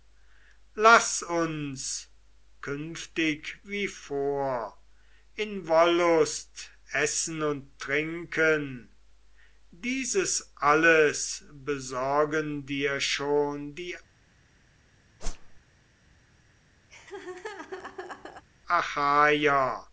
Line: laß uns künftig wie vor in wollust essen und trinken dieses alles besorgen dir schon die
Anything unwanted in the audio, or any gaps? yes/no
yes